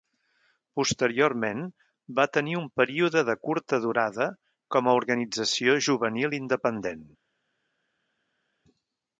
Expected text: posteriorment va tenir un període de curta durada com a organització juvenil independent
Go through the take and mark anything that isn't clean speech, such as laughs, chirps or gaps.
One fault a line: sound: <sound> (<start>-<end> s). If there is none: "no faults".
no faults